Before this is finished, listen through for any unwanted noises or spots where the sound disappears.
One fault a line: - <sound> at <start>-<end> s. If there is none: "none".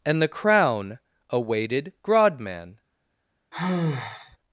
- sigh at 3.5-4.4 s